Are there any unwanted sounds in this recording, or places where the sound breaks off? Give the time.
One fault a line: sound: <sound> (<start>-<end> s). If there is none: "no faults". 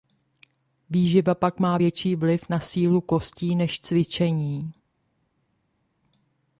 no faults